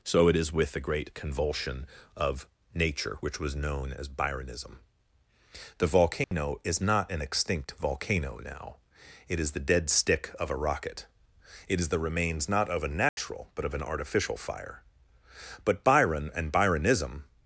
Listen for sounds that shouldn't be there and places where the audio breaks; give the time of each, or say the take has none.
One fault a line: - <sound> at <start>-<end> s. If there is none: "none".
- dropout at 6.2-6.3 s
- dropout at 13.1-13.2 s